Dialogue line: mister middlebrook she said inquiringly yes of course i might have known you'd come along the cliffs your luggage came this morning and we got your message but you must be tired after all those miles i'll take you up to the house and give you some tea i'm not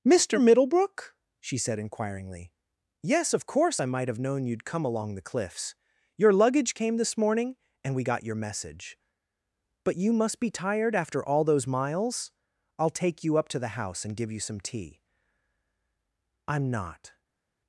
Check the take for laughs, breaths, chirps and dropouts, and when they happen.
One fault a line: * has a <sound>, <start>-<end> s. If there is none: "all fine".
all fine